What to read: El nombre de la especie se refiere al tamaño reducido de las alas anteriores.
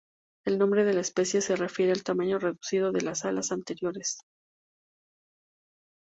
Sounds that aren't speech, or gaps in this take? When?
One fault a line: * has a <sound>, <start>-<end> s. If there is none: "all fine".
all fine